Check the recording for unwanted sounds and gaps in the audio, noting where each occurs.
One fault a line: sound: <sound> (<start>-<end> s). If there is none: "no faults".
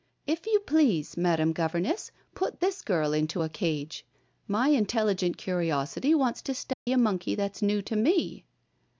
sound: dropout (6.7-6.9 s)